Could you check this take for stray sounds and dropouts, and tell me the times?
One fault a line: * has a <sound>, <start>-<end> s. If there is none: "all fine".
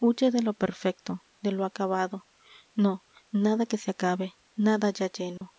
* has a dropout, 5.4-5.4 s